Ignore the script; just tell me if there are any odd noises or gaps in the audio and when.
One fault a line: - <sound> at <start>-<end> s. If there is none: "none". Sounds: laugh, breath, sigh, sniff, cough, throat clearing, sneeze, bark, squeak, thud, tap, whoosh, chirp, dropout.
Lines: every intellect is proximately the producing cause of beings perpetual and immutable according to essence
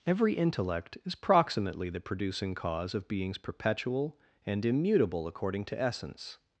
none